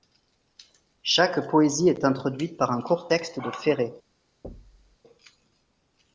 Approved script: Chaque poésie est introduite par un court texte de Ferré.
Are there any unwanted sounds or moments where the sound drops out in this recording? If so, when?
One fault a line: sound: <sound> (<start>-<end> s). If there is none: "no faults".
sound: thud (4.4-5.0 s)